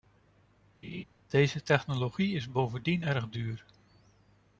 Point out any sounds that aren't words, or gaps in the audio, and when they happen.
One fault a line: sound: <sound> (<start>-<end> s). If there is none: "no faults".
sound: laugh (0.8-1.0 s)